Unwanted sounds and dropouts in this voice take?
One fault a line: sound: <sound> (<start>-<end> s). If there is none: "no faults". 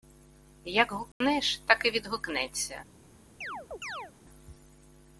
sound: dropout (1.1-1.2 s)
sound: chirp (3.4-4.1 s)